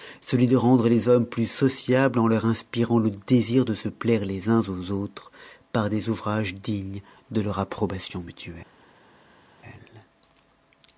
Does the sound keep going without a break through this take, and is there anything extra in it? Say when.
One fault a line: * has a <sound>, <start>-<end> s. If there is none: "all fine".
all fine